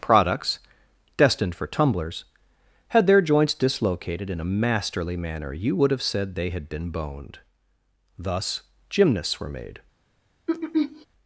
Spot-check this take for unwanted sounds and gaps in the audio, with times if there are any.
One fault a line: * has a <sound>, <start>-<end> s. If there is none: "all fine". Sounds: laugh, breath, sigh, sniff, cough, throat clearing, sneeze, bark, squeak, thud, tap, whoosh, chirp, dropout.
* has a throat clearing, 10.5-11.1 s